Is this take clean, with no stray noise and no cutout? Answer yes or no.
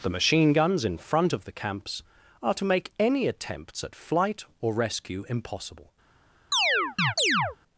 no